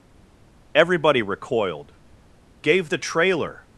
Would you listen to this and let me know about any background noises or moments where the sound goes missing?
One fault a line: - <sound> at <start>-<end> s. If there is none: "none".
none